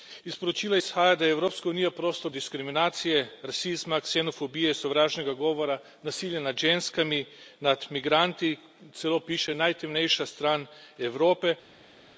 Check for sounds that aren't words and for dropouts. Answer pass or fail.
pass